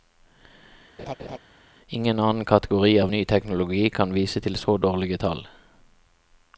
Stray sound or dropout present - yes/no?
yes